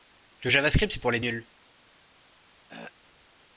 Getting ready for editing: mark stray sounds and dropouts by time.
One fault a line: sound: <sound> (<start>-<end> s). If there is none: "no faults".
sound: throat clearing (2.7-2.9 s)